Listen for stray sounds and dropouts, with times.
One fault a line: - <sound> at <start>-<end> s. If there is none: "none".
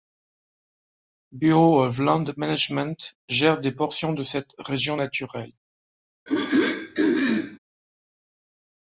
- throat clearing at 6.3-7.6 s